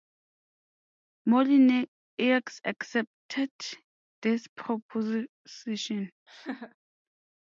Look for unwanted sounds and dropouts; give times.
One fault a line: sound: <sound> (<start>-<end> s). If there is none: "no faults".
sound: laugh (6.3-6.8 s)